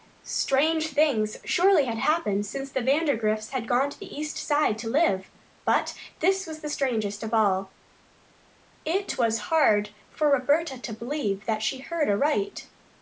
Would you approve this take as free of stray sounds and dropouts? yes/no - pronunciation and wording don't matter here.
yes